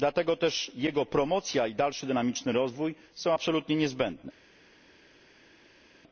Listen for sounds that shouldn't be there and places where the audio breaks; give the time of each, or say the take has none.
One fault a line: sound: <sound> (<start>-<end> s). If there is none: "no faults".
no faults